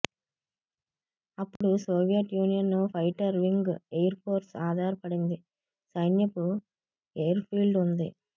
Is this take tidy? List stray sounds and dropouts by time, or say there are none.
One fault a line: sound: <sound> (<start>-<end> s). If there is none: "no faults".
sound: dropout (1.6-1.6 s)